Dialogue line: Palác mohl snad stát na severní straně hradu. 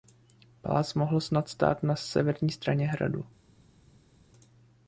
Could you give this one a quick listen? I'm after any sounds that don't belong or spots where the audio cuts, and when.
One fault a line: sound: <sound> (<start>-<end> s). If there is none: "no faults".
no faults